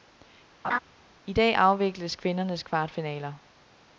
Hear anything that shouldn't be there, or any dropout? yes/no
yes